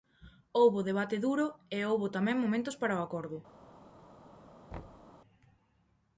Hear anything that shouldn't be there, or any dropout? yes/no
yes